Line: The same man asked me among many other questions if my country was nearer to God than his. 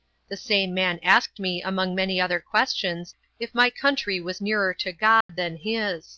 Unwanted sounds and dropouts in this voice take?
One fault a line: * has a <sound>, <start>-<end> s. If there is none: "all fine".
* has a dropout, 5.2-5.3 s